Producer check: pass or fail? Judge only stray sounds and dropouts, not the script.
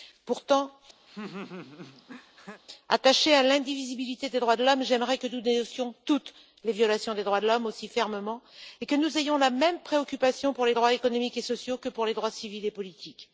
fail